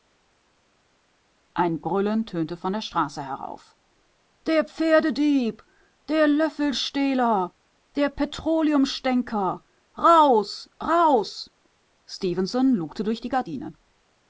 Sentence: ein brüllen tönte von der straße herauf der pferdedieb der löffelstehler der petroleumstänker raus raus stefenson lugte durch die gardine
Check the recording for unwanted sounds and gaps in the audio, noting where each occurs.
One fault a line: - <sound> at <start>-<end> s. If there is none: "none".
none